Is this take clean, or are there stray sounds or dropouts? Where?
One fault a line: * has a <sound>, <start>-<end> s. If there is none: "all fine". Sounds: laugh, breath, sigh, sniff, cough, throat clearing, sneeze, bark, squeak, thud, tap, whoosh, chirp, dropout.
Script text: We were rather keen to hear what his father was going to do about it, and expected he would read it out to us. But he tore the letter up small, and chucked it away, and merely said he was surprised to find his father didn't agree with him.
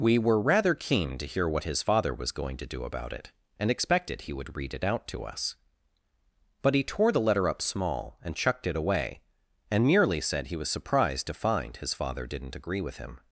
all fine